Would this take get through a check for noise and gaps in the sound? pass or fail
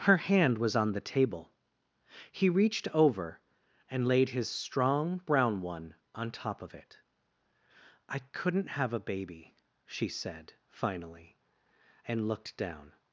pass